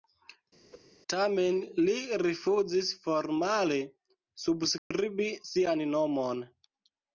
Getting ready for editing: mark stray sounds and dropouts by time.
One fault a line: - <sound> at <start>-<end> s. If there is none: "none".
- whoosh at 0.7-0.9 s
- dropout at 4.8-4.9 s